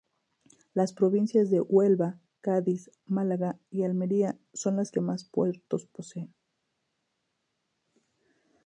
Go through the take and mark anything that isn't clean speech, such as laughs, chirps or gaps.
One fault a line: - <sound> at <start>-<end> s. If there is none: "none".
none